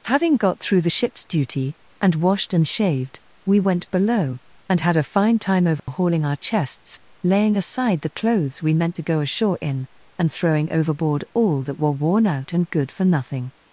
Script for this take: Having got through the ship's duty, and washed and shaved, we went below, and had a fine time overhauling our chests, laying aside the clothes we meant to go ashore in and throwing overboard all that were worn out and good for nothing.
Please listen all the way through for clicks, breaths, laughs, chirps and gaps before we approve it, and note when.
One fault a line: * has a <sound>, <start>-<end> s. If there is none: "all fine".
* has a dropout, 5.8-5.9 s